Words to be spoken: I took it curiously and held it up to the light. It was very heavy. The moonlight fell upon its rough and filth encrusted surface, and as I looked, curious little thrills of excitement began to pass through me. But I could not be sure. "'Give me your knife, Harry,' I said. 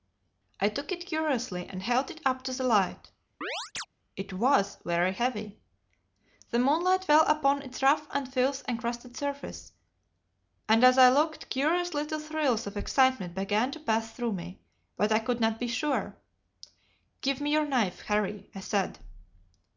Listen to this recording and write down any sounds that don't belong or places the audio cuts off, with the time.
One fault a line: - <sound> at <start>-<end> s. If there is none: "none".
- chirp at 3.4-3.9 s